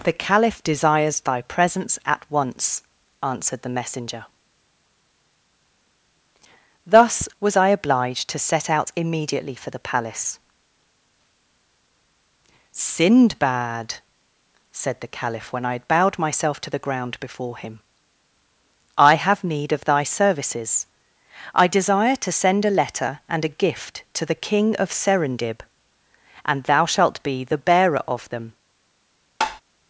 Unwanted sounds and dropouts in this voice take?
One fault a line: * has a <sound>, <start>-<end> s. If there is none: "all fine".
* has a tap, 29.4-29.6 s